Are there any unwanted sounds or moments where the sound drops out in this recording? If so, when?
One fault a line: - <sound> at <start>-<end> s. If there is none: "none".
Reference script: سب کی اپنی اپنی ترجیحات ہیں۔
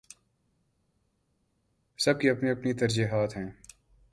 none